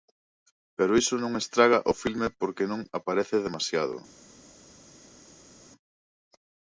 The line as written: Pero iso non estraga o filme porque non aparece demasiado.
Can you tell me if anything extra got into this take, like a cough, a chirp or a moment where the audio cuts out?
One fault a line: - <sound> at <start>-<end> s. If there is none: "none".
none